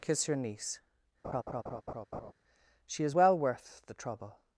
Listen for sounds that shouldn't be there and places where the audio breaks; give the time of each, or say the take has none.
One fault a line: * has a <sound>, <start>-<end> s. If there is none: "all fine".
* has a laugh, 1.2-2.3 s